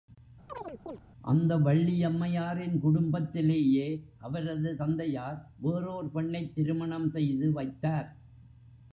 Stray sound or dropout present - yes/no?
yes